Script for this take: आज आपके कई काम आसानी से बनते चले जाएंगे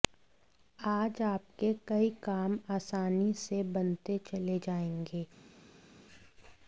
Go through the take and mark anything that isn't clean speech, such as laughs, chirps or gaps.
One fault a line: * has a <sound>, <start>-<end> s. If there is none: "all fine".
all fine